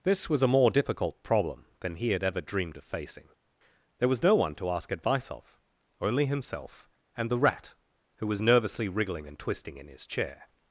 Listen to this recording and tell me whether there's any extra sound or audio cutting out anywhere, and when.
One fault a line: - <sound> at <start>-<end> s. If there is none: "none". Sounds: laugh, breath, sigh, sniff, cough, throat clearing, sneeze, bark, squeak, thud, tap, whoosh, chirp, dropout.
none